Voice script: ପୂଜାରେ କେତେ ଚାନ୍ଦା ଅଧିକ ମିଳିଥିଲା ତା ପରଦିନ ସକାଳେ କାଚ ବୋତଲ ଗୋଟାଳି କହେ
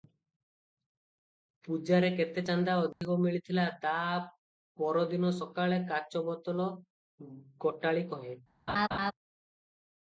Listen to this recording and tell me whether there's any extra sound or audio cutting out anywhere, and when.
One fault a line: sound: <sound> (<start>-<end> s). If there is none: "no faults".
sound: dropout (2.9-3.0 s)
sound: laugh (8.7-9.1 s)